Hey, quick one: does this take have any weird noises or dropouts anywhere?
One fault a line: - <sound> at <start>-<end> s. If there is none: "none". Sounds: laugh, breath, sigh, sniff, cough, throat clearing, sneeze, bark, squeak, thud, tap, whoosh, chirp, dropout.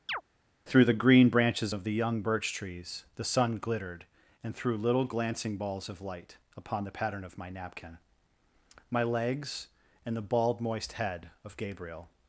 - chirp at 0.1-0.2 s